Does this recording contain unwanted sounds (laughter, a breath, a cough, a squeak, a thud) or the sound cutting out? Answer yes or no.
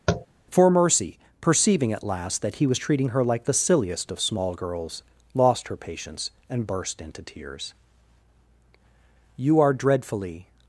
yes